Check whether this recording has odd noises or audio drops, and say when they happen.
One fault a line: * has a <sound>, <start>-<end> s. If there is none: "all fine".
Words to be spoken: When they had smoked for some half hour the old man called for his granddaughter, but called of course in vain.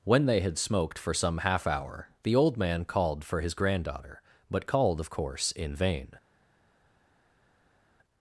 all fine